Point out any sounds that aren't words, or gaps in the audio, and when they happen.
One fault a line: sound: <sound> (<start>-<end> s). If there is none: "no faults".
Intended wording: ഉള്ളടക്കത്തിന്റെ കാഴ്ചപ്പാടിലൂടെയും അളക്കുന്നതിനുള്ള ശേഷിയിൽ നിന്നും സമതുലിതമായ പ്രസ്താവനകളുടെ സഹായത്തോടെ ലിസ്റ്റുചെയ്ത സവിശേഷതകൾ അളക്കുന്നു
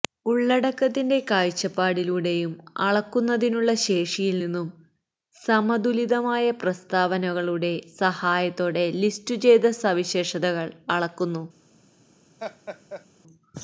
sound: laugh (12.4-13.1 s)